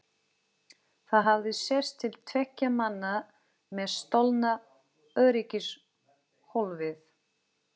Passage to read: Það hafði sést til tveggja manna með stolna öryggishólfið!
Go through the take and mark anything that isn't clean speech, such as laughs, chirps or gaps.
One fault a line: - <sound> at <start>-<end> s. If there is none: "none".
none